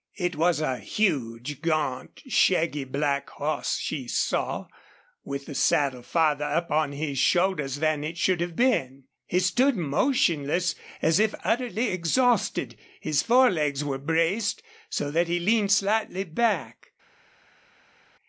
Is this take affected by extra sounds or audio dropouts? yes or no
no